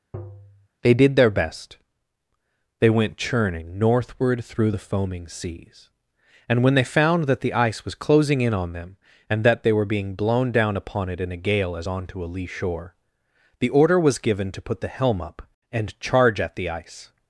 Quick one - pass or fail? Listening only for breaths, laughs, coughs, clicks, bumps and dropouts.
fail